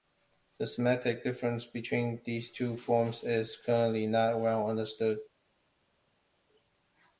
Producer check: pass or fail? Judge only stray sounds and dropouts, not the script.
pass